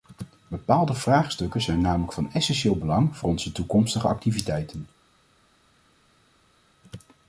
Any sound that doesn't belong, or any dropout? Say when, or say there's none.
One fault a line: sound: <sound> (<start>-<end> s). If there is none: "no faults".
no faults